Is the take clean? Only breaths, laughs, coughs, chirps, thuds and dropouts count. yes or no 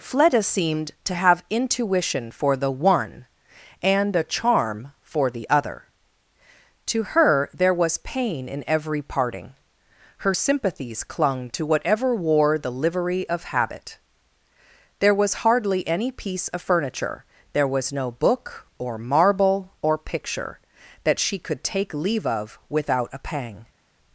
yes